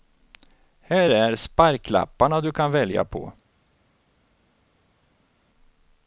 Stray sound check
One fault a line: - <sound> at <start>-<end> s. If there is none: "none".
none